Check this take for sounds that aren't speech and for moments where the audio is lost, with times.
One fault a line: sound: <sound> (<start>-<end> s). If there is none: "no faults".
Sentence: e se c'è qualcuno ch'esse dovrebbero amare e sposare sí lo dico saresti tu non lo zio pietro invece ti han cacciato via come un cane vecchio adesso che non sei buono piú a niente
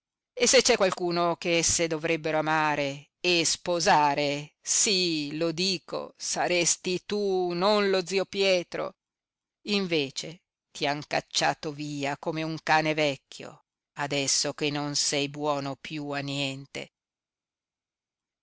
no faults